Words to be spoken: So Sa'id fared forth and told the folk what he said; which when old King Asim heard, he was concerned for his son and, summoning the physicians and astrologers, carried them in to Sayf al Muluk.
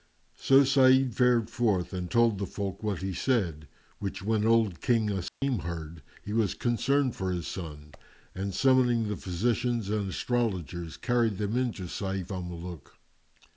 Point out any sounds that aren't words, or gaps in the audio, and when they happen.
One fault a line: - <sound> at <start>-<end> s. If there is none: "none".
- dropout at 5.3-5.4 s